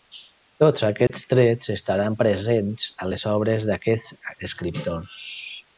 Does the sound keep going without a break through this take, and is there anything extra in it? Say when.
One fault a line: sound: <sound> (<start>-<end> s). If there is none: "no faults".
sound: dropout (1.1-1.1 s)